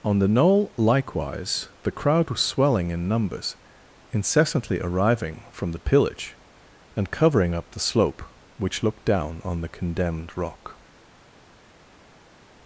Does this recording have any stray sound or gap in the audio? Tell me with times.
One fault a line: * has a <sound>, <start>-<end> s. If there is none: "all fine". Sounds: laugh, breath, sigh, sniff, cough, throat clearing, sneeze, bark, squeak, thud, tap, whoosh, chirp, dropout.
all fine